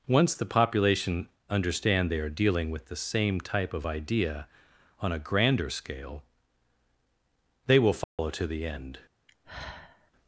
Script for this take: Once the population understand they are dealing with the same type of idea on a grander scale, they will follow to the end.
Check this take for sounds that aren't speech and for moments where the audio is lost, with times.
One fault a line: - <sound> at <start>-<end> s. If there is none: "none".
- dropout at 8.0-8.2 s
- sigh at 9.3-10.1 s